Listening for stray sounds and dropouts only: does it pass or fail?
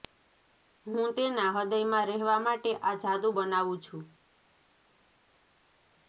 pass